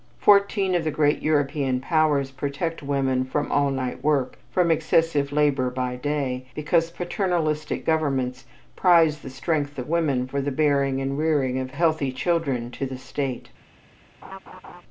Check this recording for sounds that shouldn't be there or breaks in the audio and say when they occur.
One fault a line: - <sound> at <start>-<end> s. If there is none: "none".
- laugh at 14.2-14.8 s